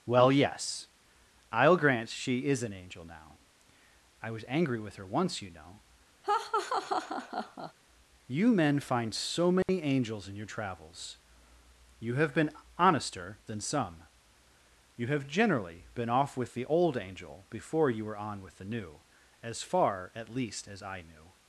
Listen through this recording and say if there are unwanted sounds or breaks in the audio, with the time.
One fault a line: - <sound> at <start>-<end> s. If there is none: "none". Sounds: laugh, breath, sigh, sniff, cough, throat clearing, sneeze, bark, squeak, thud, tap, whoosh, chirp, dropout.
- laugh at 6.2-7.7 s
- dropout at 9.6-9.7 s